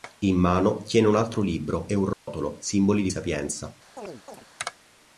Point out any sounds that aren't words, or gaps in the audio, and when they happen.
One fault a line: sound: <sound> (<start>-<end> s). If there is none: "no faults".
sound: dropout (2.1-2.3 s)
sound: chirp (4.0-4.5 s)